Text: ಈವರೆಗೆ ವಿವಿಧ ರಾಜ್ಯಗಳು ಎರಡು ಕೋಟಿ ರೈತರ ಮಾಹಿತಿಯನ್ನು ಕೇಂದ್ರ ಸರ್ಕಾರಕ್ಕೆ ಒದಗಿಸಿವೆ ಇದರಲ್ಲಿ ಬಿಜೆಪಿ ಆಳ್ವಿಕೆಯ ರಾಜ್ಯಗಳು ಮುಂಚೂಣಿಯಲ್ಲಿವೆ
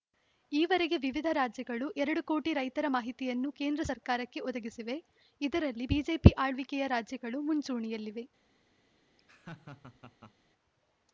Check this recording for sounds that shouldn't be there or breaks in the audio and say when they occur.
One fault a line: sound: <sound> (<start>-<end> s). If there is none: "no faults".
sound: laugh (9.2-10.3 s)